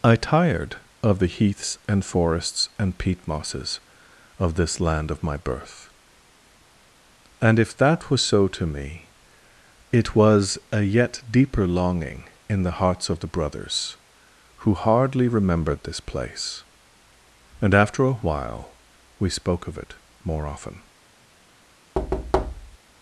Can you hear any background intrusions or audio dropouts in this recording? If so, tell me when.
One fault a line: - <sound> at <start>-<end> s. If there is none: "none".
- thud at 21.9-22.8 s